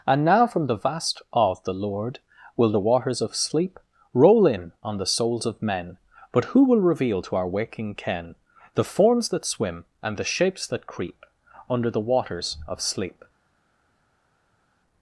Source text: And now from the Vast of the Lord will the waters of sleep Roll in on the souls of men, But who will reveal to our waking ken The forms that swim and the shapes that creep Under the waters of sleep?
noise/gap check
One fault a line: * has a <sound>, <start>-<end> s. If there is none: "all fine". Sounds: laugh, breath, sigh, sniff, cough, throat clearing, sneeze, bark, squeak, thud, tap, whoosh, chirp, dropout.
all fine